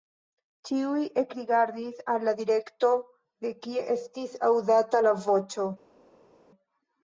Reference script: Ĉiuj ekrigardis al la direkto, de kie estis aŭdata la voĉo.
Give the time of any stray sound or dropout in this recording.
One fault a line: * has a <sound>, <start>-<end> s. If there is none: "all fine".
all fine